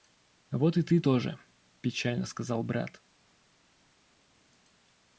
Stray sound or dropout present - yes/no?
no